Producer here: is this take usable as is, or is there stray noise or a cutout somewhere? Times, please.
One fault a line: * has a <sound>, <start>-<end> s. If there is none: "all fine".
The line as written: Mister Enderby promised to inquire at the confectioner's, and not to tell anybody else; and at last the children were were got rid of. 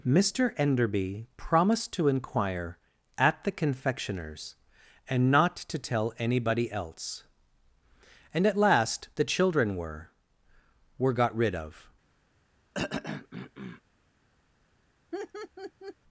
* has a throat clearing, 12.7-13.8 s
* has a laugh, 15.1-16.0 s